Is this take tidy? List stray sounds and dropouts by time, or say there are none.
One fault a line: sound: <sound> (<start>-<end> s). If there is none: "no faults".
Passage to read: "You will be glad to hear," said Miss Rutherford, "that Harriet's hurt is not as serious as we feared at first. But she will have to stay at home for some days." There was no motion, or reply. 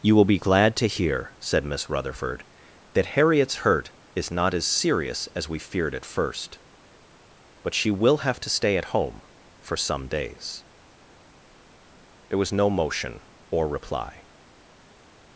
no faults